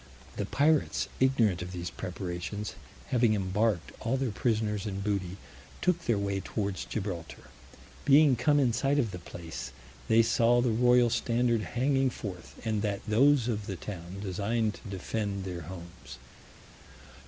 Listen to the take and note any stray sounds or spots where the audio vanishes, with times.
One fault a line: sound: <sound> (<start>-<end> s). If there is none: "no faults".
no faults